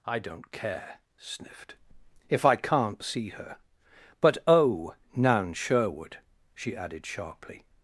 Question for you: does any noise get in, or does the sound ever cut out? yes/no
no